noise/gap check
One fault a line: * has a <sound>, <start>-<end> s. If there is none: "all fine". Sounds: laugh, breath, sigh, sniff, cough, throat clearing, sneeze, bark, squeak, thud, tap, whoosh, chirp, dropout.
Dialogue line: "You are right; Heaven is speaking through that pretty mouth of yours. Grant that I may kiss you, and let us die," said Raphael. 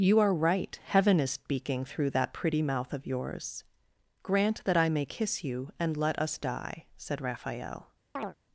* has a chirp, 8.2-8.3 s